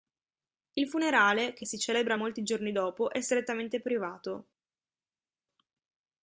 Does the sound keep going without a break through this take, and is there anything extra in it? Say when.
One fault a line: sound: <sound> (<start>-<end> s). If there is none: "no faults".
no faults